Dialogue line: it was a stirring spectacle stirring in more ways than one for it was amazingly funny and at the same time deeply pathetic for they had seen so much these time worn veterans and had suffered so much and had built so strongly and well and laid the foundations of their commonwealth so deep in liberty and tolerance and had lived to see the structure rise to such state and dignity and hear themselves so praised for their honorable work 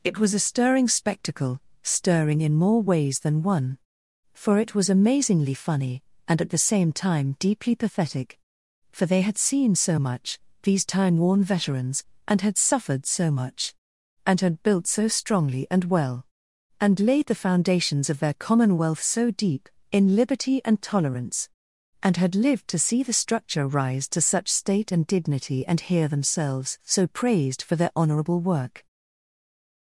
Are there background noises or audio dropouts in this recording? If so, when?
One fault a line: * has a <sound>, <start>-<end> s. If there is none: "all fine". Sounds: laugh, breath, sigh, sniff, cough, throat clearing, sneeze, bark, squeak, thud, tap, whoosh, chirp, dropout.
all fine